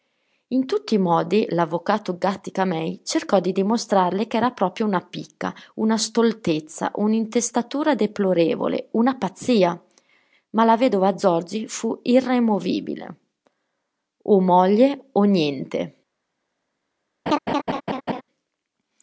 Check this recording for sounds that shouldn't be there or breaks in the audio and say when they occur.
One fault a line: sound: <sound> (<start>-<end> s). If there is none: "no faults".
sound: laugh (17.3-18.2 s)